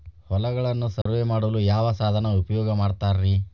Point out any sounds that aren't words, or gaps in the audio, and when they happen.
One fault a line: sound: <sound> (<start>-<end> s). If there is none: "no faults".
sound: dropout (1.0-1.1 s)